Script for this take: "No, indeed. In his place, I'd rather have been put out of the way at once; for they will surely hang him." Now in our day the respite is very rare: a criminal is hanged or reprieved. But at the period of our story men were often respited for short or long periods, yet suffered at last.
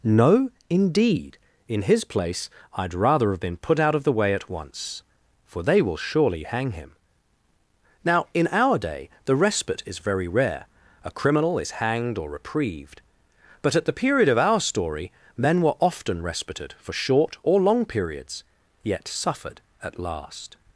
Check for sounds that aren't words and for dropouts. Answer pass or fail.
pass